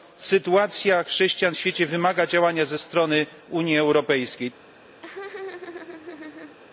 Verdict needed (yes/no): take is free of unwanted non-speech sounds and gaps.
no